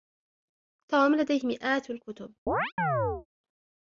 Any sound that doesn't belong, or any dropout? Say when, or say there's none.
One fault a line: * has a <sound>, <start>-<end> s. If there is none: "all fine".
* has a chirp, 2.5-3.3 s